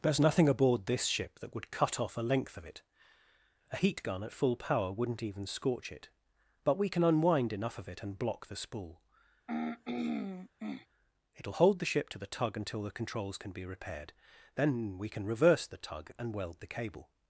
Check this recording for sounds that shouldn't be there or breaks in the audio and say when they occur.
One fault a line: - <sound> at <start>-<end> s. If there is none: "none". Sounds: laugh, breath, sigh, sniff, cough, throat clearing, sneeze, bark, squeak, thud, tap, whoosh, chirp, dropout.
- throat clearing at 9.5-10.9 s